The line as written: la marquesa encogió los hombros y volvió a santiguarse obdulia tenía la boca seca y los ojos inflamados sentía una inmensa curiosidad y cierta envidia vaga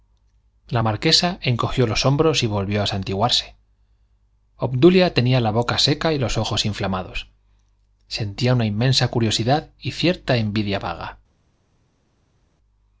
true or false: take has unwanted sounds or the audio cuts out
false